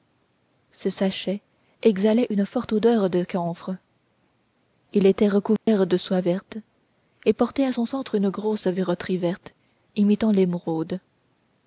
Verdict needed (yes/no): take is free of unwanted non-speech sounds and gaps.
no